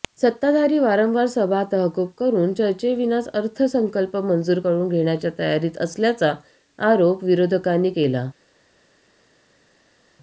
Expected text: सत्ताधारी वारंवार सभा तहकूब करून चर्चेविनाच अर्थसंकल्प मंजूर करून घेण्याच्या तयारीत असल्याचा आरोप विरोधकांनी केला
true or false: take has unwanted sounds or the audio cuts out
false